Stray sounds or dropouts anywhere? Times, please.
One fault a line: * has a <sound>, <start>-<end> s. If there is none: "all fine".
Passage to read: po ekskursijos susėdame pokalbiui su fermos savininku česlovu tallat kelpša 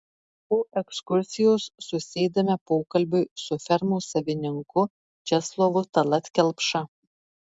all fine